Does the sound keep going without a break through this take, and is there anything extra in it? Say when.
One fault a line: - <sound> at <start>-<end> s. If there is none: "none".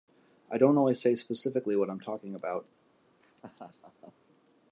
- laugh at 3.2-4.1 s